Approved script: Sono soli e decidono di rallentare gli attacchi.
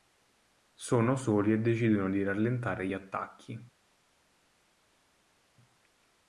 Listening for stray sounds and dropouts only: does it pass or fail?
pass